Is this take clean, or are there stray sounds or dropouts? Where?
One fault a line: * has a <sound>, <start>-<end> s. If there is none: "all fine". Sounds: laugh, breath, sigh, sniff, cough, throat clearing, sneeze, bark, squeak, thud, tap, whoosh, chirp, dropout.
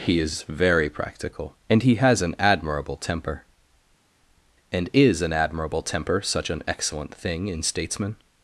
all fine